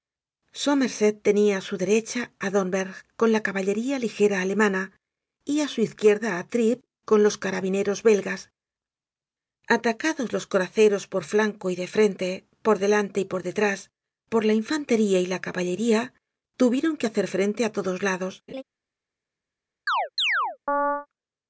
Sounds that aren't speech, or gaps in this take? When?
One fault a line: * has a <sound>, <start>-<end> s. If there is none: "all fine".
* has a laugh, 18.5-18.6 s
* has a chirp, 19.9-21.1 s